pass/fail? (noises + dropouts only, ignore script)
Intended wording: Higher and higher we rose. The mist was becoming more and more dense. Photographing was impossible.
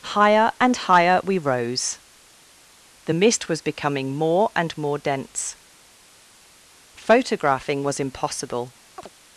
fail